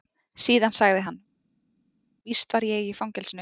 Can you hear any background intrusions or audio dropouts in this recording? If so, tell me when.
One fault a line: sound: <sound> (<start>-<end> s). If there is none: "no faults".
no faults